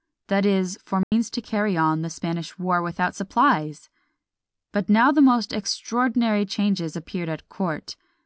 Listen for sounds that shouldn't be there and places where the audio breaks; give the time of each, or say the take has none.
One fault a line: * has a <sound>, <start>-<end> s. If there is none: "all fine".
* has a dropout, 1.0-1.1 s